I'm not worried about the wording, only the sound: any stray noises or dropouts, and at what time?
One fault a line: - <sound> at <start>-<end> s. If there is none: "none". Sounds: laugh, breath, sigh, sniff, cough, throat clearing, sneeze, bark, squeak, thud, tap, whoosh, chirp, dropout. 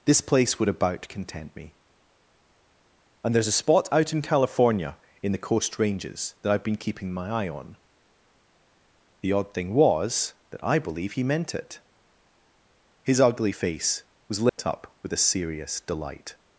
- dropout at 14.5-14.6 s